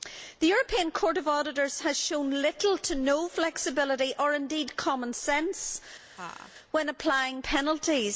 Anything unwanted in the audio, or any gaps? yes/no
yes